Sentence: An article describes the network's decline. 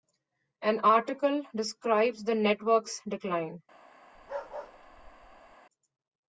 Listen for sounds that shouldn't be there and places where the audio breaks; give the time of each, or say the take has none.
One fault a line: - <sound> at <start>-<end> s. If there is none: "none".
- bark at 4.1-5.6 s